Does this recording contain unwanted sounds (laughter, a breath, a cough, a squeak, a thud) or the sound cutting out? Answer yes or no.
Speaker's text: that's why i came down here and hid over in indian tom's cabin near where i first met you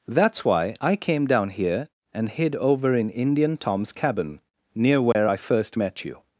yes